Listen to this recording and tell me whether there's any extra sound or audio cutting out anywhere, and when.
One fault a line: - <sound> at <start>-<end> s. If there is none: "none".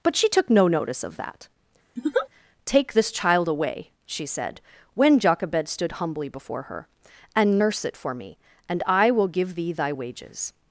- laugh at 2.0-2.3 s